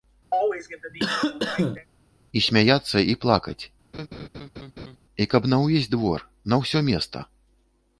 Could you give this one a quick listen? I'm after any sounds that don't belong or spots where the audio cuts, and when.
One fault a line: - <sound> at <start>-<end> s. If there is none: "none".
- cough at 0.3-1.9 s
- laugh at 3.9-5.0 s